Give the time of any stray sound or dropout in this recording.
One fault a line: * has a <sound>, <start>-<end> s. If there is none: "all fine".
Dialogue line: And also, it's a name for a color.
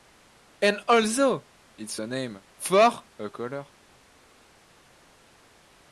all fine